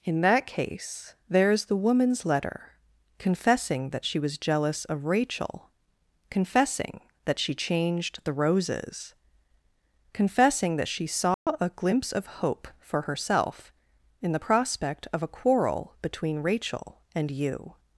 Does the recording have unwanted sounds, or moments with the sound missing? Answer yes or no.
yes